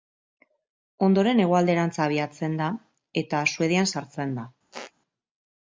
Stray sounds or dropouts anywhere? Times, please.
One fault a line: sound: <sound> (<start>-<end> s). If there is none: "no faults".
sound: squeak (4.7-4.9 s)